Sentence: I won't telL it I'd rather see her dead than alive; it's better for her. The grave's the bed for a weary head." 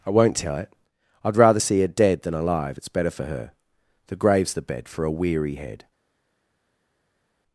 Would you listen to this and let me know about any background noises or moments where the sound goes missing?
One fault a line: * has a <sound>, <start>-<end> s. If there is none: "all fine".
all fine